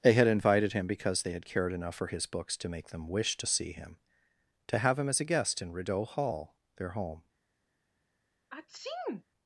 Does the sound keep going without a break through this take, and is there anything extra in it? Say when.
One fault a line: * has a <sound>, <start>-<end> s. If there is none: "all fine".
* has a sneeze, 8.5-9.2 s